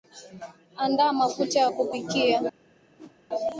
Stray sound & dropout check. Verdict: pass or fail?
fail